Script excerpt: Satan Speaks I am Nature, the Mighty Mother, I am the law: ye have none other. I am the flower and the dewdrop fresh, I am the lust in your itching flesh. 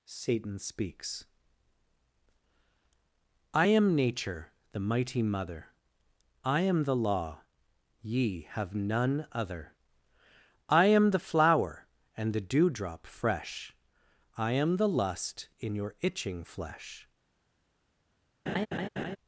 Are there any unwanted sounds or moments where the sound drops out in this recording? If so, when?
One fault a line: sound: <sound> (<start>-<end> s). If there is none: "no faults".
sound: laugh (18.5-19.2 s)